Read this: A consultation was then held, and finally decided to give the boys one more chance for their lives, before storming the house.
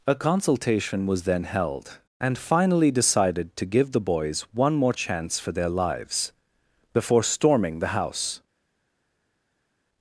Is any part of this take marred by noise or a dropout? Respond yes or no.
no